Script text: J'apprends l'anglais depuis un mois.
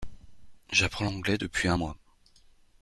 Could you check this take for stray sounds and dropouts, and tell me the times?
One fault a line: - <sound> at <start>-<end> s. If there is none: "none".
none